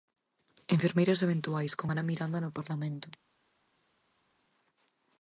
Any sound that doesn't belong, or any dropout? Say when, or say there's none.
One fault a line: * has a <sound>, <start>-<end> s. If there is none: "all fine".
all fine